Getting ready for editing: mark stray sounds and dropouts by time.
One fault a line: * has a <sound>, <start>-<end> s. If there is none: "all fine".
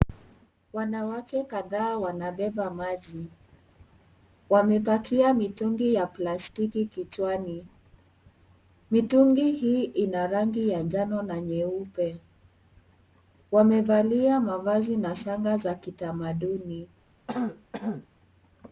* has a throat clearing, 17.3-18.1 s